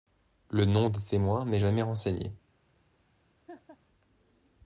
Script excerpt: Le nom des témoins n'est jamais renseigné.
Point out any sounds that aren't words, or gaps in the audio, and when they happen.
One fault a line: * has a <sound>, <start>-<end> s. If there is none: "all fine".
* has a laugh, 3.5-3.8 s